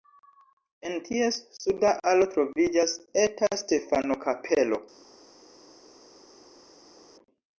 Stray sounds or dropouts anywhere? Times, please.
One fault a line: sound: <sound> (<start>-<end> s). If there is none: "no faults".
no faults